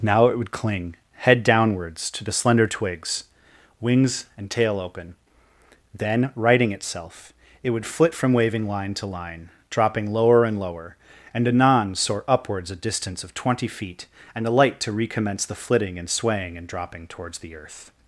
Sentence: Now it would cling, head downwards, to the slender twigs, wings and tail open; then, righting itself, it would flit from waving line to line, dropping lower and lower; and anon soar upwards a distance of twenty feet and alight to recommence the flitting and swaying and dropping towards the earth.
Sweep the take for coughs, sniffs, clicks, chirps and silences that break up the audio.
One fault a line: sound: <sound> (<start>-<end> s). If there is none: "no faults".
no faults